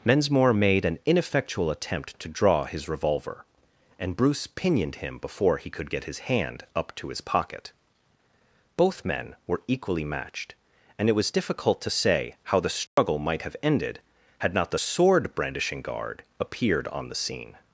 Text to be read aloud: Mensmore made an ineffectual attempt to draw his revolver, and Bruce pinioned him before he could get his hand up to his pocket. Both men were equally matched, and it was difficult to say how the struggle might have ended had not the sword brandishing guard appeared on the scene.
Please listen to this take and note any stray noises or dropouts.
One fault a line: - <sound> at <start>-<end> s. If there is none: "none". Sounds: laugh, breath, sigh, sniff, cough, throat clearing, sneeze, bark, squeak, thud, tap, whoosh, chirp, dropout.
- dropout at 12.9-13.0 s